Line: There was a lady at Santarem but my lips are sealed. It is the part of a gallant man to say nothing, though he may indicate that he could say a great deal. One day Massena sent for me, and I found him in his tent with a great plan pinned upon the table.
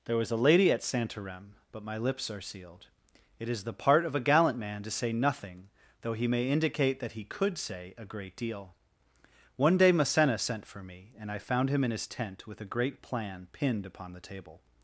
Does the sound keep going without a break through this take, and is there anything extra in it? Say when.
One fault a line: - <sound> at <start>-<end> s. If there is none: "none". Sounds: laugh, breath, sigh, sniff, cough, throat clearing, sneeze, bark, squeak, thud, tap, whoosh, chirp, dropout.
none